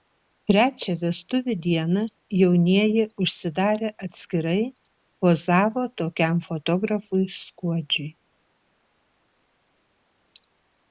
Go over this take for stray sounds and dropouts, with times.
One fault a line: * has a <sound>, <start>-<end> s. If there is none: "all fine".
all fine